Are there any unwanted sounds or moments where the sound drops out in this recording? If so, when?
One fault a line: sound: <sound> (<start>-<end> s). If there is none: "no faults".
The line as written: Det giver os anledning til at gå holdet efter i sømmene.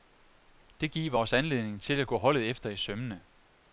no faults